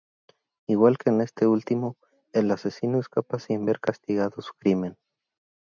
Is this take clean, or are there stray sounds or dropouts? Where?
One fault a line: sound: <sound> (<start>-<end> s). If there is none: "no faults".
no faults